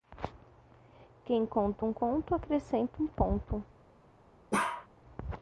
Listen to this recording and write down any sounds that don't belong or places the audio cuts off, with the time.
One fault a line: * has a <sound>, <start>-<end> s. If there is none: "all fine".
* has a bark, 4.5-4.9 s